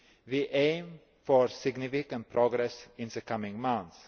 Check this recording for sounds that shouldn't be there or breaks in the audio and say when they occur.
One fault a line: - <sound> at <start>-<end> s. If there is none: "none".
none